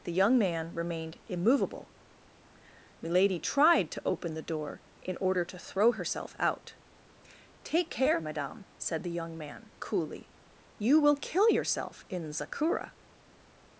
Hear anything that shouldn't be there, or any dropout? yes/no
no